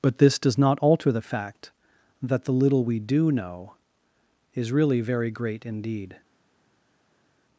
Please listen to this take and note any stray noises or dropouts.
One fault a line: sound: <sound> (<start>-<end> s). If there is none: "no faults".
no faults